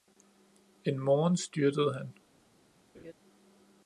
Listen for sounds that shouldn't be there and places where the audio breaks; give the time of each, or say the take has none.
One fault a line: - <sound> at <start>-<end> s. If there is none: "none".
- laugh at 2.9-3.1 s